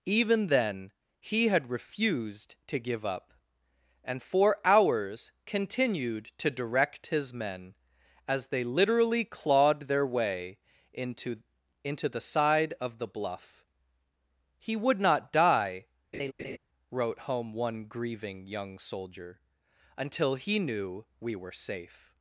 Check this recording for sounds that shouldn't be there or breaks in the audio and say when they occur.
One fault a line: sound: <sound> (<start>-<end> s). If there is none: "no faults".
sound: laugh (16.1-16.6 s)